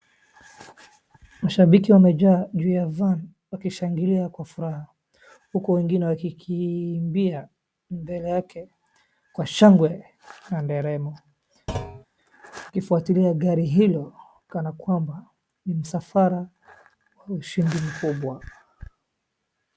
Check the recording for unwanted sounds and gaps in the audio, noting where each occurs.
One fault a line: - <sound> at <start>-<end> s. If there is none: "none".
- thud at 11.7-12.1 s